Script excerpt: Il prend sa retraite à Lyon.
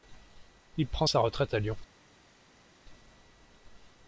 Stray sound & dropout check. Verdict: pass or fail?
pass